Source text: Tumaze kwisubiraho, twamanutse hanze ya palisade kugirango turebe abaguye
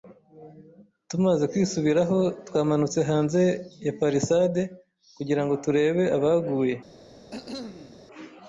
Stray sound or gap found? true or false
true